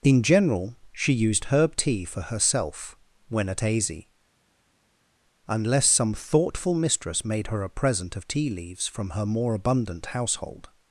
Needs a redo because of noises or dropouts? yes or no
no